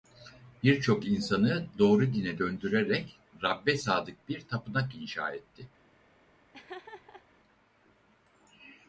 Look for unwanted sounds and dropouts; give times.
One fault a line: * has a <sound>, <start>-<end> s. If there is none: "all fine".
* has a laugh, 6.5-7.3 s